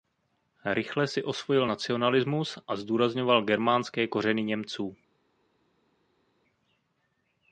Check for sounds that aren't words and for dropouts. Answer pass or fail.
pass